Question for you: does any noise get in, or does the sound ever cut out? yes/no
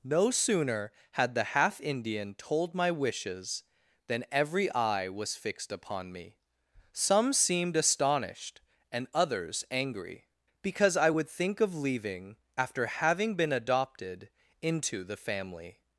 no